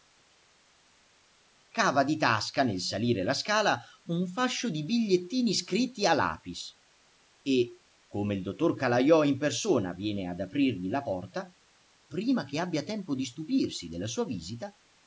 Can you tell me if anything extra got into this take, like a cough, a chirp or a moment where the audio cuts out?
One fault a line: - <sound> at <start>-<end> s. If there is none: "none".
none